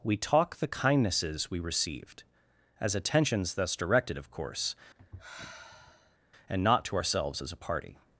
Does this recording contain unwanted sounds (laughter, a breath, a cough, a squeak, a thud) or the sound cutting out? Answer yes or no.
yes